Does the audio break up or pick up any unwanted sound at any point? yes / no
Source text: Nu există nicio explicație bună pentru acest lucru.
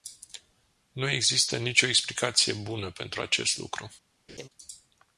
yes